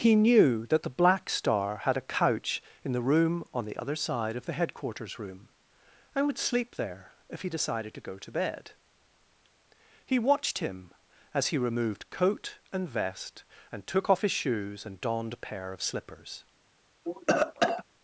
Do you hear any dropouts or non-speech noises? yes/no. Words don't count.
yes